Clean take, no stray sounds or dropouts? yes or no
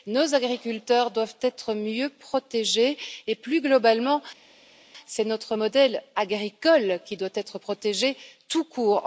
yes